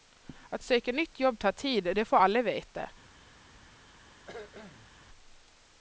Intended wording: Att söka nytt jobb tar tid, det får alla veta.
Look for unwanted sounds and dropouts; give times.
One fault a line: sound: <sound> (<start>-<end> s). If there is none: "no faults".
sound: cough (4.3-4.9 s)